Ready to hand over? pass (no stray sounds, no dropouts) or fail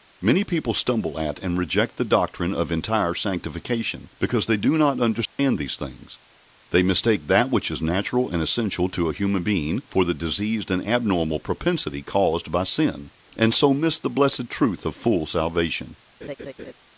fail